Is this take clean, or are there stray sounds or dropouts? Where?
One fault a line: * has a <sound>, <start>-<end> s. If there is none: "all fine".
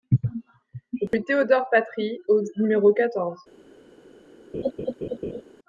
* has a dropout, 1.1-1.1 s
* has a laugh, 4.5-5.4 s